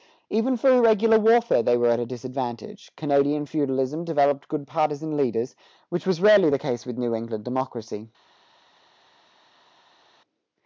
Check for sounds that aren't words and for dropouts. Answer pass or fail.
pass